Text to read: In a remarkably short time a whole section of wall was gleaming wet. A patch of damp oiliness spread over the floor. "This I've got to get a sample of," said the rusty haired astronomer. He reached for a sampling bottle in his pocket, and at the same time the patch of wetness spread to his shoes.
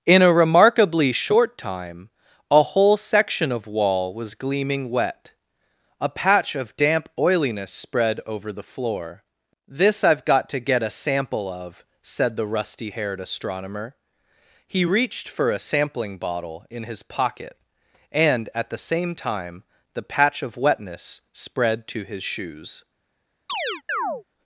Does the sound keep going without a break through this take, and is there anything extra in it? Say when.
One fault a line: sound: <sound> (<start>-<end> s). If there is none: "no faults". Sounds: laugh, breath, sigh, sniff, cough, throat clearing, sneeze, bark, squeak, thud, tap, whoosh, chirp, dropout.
sound: chirp (23.5-24.2 s)